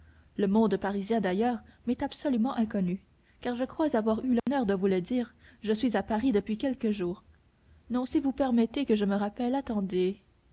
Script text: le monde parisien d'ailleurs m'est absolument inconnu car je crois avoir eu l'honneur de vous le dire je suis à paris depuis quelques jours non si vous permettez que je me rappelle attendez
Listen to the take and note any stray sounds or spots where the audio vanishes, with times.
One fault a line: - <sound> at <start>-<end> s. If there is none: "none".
- dropout at 4.4-4.5 s